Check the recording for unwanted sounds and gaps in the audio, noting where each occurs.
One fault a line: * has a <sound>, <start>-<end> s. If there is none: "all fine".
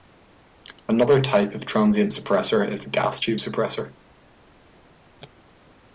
all fine